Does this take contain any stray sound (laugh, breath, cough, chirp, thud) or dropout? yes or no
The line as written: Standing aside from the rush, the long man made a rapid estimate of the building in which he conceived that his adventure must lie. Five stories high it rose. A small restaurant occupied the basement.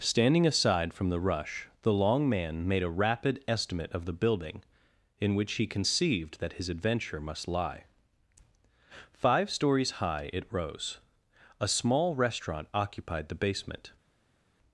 no